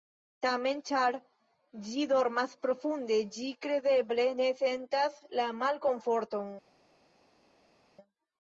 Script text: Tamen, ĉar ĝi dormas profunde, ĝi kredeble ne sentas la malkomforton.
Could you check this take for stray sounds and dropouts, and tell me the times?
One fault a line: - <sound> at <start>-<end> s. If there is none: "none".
none